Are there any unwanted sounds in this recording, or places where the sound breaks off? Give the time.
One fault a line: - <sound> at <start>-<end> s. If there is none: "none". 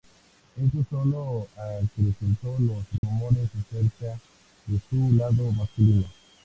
- dropout at 3.0-3.0 s